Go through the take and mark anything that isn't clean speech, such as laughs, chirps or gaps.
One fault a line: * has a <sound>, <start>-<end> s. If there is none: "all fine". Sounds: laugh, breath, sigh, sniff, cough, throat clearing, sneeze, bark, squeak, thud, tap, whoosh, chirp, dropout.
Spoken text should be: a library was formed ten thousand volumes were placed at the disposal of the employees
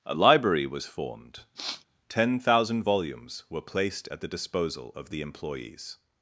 * has a sniff, 1.5-1.8 s